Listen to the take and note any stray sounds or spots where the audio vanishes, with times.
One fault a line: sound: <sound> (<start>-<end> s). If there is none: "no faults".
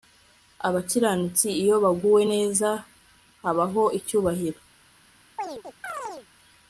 sound: chirp (5.4-6.3 s)